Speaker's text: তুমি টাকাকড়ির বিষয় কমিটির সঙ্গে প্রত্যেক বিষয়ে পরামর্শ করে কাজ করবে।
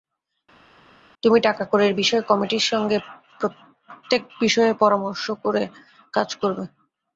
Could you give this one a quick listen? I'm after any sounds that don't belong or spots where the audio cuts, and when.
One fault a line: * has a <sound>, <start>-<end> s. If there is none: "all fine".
all fine